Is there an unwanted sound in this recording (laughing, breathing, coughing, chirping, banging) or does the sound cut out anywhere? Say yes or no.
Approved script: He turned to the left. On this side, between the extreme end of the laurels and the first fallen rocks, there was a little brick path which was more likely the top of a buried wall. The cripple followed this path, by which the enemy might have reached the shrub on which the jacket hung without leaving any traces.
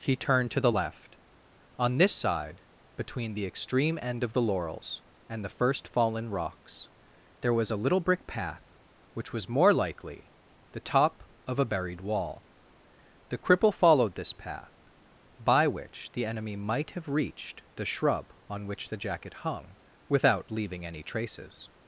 no